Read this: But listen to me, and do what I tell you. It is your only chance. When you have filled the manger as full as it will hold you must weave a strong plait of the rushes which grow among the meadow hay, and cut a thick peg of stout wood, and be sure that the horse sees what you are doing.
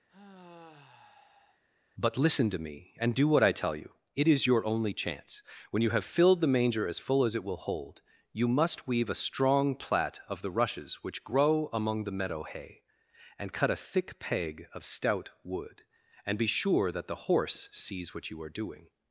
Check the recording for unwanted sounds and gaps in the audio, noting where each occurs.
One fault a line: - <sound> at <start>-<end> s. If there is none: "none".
- sigh at 0.1-1.6 s